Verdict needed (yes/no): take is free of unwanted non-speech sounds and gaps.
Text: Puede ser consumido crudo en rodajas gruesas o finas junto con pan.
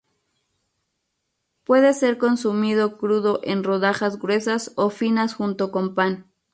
yes